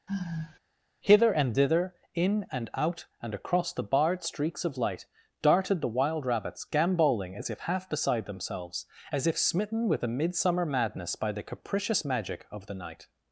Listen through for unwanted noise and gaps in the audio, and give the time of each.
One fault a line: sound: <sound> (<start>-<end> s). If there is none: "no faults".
sound: sigh (0.1-0.6 s)